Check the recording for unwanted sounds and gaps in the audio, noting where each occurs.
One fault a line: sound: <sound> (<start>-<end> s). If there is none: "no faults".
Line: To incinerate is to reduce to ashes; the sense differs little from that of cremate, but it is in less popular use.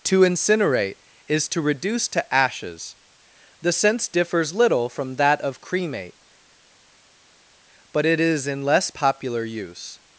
no faults